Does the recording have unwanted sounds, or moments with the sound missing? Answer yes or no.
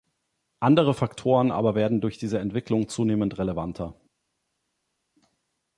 no